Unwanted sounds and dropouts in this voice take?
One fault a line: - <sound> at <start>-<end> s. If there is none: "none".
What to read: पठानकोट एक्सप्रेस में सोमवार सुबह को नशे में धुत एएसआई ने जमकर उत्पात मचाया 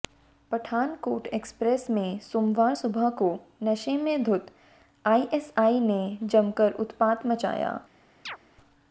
- chirp at 8.3-8.4 s